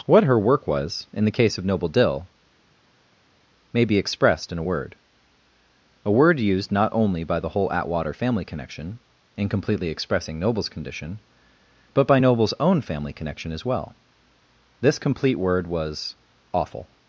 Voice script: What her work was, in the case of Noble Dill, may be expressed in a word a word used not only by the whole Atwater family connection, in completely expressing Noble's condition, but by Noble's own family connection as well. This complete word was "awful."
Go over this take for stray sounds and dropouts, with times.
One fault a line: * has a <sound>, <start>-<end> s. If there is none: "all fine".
all fine